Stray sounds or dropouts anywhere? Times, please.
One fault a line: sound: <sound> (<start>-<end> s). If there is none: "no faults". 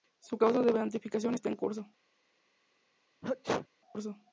sound: sneeze (3.2-3.7 s)